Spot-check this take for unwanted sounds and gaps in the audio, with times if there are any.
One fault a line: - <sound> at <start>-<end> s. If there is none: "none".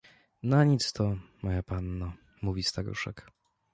none